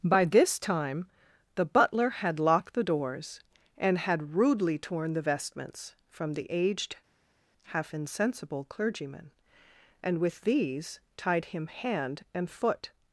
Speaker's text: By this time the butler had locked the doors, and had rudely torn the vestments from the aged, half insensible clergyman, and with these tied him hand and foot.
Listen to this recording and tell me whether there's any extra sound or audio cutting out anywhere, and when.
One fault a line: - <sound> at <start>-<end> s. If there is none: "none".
none